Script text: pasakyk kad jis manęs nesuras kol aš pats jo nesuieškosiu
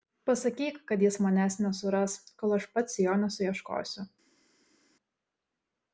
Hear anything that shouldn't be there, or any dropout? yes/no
no